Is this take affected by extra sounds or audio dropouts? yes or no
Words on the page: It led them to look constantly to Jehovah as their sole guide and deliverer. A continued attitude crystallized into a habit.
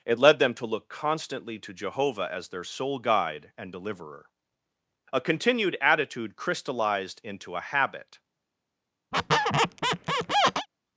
yes